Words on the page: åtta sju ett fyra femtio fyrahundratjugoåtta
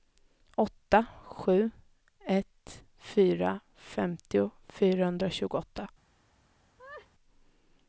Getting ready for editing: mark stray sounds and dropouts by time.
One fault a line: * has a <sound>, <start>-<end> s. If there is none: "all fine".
* has a laugh, 6.8-7.1 s